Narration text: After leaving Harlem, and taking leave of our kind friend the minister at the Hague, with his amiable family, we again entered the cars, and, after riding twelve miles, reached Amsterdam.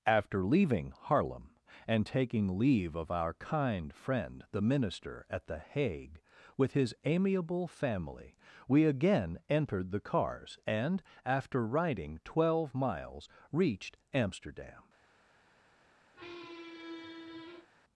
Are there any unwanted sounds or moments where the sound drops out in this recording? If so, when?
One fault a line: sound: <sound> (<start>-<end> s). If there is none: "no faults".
sound: squeak (16.1-17.7 s)